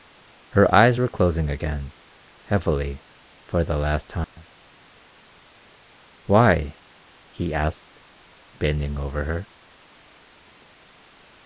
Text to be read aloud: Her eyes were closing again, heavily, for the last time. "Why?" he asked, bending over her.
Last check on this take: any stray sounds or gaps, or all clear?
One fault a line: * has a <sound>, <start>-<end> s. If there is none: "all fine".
* has a dropout, 4.2-4.4 s